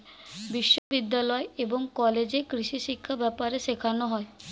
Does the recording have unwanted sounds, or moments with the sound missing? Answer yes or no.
yes